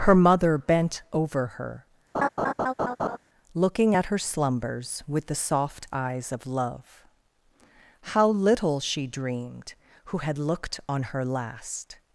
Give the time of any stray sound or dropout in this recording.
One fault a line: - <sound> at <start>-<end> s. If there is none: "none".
- laugh at 2.1-3.2 s